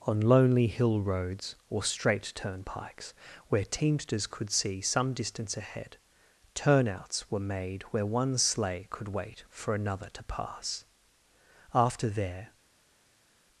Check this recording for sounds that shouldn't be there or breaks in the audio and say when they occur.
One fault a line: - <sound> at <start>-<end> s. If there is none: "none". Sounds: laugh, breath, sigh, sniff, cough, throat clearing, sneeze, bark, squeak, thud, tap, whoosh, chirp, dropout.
none